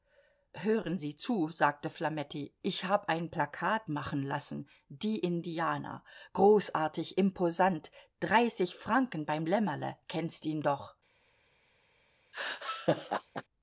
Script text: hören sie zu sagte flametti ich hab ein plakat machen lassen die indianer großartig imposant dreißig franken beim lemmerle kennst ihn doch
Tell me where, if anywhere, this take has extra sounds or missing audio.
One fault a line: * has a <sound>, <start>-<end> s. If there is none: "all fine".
* has a laugh, 12.3-13.4 s